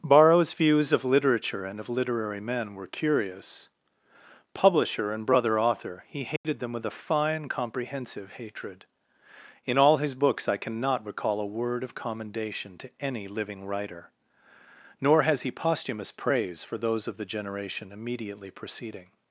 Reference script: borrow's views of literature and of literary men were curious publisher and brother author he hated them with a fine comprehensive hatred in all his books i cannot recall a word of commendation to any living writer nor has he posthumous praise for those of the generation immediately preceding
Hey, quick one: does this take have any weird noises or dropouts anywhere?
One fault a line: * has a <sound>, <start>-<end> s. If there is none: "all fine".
* has a dropout, 6.4-6.4 s